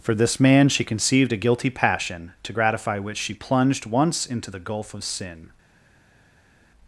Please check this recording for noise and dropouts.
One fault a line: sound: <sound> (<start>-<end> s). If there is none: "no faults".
no faults